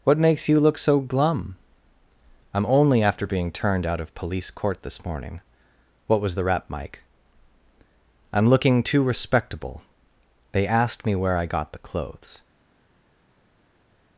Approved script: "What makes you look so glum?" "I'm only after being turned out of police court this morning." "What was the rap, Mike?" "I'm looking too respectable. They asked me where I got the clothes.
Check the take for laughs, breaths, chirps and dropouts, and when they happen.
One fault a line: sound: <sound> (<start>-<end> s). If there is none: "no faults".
no faults